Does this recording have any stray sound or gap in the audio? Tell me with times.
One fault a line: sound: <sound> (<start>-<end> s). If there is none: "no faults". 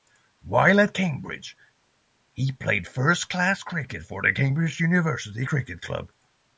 no faults